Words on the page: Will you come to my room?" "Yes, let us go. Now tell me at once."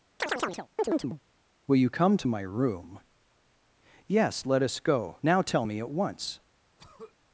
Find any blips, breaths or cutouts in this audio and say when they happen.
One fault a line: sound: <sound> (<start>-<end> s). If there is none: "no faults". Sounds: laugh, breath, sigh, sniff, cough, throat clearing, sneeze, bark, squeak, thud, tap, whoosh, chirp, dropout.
sound: chirp (0.2-1.2 s)
sound: throat clearing (6.8-7.2 s)